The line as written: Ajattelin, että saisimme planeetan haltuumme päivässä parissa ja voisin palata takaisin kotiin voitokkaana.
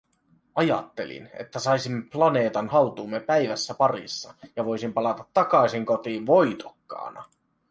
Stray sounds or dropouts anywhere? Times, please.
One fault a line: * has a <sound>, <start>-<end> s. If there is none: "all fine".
all fine